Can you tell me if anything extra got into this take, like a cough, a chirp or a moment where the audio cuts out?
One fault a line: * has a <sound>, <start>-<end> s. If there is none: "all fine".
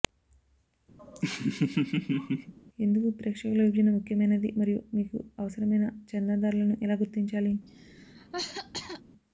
* has a laugh, 1.0-2.5 s
* has a cough, 7.7-9.0 s